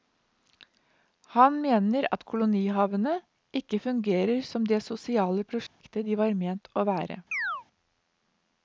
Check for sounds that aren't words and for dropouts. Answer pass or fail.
fail